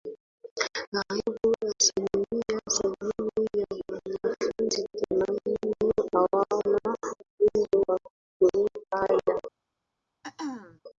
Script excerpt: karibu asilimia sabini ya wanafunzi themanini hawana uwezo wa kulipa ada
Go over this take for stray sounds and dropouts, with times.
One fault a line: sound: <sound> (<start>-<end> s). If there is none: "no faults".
sound: throat clearing (10.2-10.8 s)